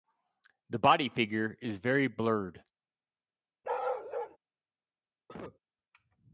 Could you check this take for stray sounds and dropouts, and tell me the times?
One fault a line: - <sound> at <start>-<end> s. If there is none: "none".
- bark at 3.6-4.4 s
- cough at 5.3-5.6 s